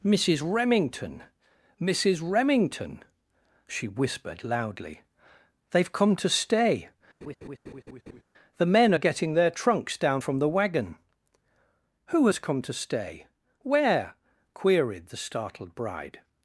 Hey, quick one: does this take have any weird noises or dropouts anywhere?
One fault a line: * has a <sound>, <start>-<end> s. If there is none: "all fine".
* has a laugh, 7.2-8.2 s